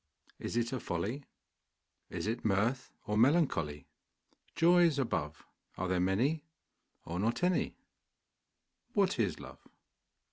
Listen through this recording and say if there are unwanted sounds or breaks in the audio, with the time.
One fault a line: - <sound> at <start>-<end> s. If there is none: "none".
none